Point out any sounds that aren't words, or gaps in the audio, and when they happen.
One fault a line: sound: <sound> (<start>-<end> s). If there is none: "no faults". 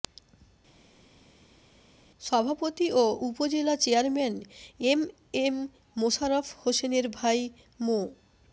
no faults